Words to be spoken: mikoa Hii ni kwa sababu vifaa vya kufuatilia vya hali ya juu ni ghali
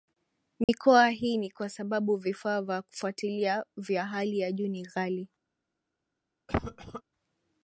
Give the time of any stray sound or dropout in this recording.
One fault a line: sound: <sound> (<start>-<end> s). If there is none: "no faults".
sound: dropout (0.6-0.7 s)
sound: cough (6.5-7.0 s)